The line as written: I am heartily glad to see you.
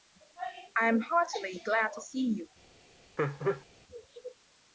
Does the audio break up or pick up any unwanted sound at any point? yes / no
yes